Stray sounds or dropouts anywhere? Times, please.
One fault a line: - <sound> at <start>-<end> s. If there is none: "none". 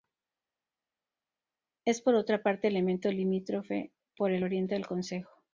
none